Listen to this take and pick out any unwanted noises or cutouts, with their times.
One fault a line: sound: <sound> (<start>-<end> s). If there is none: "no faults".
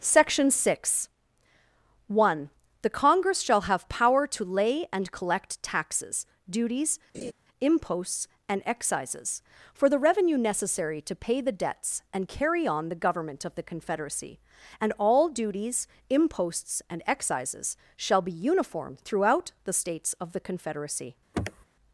sound: laugh (7.1-7.3 s)
sound: sniff (21.3-21.6 s)